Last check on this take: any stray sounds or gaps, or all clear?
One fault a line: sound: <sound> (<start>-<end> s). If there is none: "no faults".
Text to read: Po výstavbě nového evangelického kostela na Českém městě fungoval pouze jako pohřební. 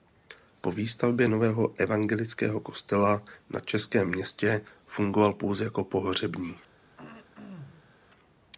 sound: throat clearing (7.0-8.0 s)